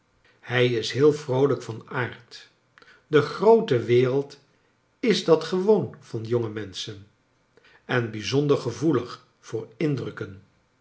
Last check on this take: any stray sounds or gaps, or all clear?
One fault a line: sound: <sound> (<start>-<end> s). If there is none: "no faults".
no faults